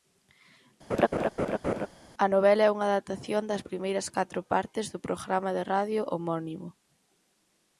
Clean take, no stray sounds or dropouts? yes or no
no